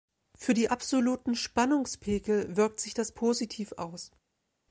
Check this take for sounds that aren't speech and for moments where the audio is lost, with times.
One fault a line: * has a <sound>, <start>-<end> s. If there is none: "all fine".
all fine